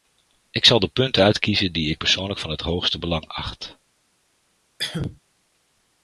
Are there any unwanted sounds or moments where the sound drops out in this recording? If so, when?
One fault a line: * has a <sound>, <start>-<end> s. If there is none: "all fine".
* has a cough, 4.8-5.2 s